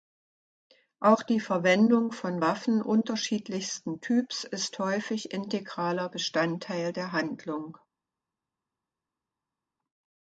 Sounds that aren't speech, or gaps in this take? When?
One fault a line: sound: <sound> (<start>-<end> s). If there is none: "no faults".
no faults